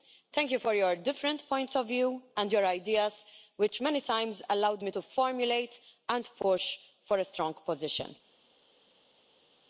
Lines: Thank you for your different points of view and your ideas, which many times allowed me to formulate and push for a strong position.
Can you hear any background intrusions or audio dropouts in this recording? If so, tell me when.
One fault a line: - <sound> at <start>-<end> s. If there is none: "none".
none